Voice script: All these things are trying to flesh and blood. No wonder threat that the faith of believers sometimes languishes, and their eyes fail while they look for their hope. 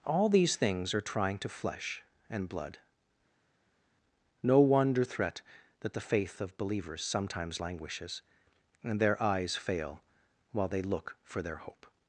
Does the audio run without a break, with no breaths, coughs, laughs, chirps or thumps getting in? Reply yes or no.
yes